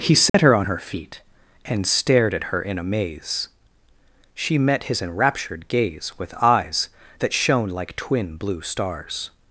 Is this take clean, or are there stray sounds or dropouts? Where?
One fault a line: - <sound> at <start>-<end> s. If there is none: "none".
- dropout at 0.3-0.3 s